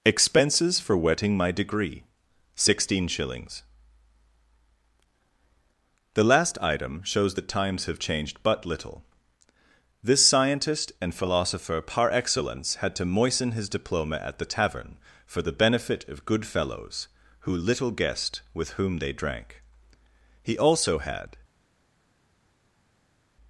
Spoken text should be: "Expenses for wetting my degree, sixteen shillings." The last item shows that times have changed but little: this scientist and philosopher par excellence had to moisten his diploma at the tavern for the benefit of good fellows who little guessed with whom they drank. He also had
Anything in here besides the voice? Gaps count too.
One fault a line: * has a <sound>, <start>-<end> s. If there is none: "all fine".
all fine